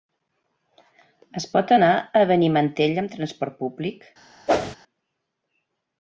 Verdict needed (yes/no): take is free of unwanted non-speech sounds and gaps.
no